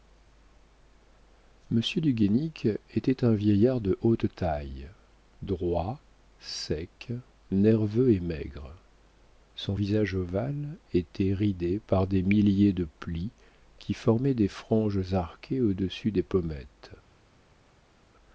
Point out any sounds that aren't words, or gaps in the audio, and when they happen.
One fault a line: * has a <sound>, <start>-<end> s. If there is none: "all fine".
all fine